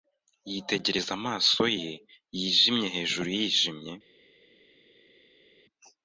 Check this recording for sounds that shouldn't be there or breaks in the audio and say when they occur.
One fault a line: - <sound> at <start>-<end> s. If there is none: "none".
none